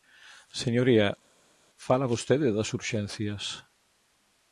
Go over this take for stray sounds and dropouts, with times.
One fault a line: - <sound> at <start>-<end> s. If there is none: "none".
none